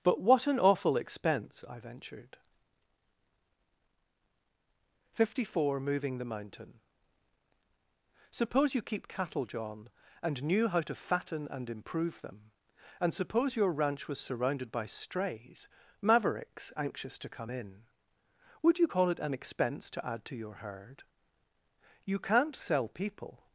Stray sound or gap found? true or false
false